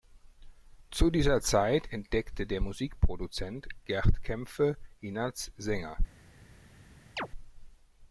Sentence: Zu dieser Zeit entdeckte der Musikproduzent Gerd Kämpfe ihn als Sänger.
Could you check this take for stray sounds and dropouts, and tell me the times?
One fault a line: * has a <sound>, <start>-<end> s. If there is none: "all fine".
* has a chirp, 7.2-7.3 s